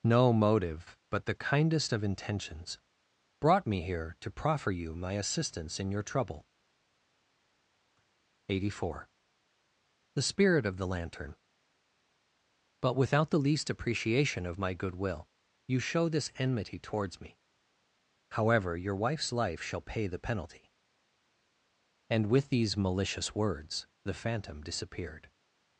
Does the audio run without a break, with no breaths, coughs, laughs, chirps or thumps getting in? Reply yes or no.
yes